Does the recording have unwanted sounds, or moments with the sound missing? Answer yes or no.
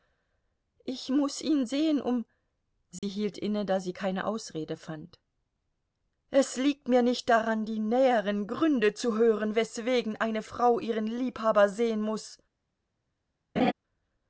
yes